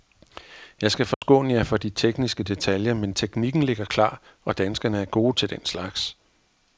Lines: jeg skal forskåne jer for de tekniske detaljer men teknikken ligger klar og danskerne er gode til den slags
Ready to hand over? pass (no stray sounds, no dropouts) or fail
fail